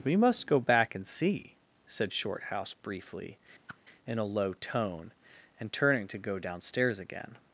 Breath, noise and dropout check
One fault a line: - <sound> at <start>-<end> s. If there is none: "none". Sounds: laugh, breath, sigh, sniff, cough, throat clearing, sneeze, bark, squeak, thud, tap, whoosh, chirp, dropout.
- whoosh at 3.7-3.8 s